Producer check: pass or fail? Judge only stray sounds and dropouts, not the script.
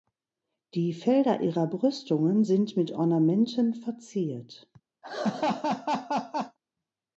fail